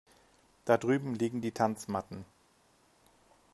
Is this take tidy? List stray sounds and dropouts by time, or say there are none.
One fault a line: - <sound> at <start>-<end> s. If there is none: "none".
none